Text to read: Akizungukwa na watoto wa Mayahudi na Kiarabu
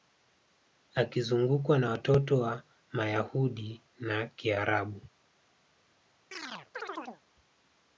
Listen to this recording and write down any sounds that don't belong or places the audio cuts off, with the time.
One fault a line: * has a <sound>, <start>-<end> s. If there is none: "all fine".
* has a chirp, 6.3-7.2 s